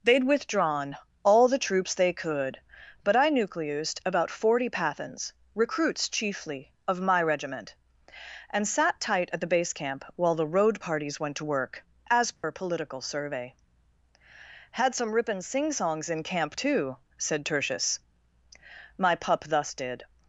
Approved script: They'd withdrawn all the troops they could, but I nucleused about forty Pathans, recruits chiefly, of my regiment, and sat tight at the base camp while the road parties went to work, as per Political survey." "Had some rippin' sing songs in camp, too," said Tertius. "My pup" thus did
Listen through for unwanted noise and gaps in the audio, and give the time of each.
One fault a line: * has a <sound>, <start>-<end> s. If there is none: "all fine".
* has a dropout, 12.4-12.4 s